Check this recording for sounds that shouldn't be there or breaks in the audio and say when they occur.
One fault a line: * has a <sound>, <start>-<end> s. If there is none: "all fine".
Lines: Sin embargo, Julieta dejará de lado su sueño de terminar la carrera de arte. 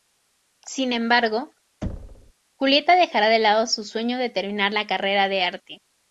* has a thud, 1.8-2.3 s